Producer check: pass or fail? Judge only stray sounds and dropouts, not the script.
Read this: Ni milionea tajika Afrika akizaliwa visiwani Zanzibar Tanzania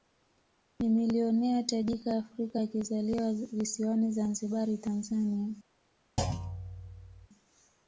fail